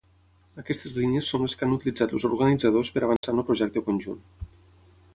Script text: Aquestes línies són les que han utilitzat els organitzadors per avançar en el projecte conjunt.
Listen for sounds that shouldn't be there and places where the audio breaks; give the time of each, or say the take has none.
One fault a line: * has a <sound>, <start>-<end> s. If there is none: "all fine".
* has a dropout, 3.2-3.2 s